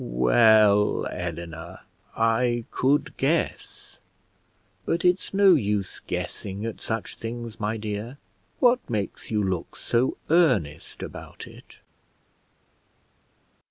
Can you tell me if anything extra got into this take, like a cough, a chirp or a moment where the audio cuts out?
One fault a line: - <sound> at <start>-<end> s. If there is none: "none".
none